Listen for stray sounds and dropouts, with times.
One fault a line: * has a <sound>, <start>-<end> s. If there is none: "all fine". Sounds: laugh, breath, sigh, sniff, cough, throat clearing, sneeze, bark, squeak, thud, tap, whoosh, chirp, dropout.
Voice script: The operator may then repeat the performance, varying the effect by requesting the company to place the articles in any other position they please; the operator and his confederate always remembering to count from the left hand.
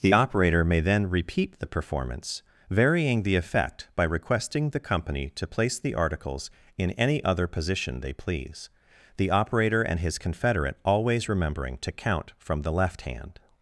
all fine